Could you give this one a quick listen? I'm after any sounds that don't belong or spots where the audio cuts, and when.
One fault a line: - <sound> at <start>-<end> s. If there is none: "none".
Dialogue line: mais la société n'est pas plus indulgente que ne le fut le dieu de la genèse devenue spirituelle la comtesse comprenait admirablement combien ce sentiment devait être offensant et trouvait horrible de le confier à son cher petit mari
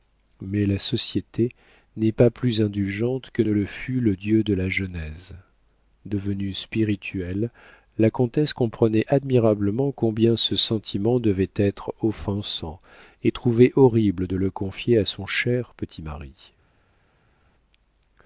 none